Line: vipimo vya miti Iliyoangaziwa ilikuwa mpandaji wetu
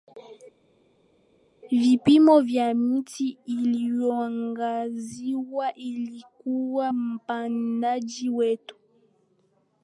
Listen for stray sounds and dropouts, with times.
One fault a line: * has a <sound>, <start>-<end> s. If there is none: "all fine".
all fine